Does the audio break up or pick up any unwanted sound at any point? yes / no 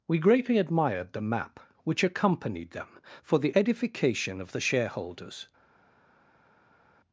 no